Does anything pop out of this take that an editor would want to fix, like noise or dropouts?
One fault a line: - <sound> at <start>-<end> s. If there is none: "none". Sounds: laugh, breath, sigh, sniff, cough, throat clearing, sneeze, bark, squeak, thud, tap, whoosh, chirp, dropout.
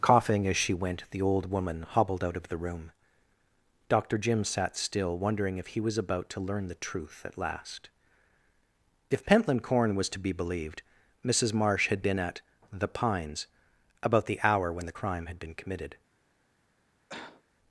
- cough at 17.1-17.4 s